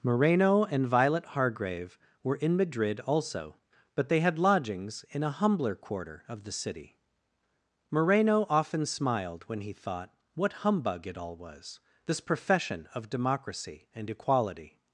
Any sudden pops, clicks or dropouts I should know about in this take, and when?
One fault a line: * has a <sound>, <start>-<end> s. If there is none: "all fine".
all fine